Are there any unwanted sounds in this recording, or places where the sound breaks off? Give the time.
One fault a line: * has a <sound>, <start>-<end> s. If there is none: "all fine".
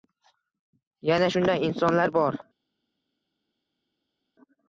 all fine